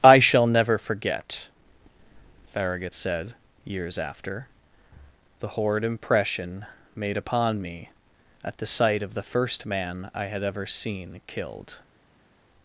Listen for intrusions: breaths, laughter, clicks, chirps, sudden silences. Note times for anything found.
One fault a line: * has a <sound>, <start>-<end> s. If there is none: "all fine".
all fine